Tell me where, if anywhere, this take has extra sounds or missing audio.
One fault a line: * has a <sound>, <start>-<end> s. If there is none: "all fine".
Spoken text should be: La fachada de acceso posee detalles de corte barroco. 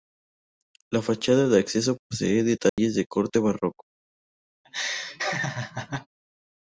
* has a dropout, 2.7-2.8 s
* has a laugh, 4.6-6.1 s